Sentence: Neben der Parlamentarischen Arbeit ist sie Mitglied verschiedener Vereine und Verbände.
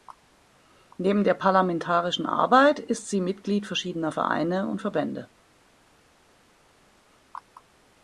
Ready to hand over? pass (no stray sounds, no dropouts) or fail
pass